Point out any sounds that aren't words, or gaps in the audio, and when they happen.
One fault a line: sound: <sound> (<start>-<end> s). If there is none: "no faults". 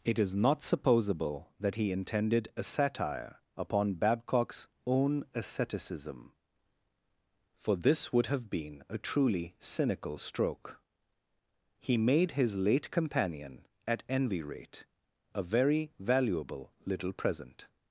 no faults